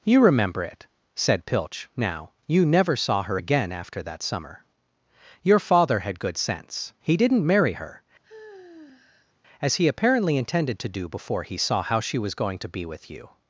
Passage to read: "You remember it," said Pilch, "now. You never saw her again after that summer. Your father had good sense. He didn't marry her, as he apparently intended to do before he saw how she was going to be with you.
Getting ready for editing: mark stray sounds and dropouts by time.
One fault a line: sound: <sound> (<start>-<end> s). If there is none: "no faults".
sound: sigh (8.2-9.3 s)